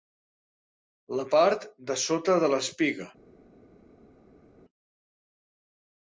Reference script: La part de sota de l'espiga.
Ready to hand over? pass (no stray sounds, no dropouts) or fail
pass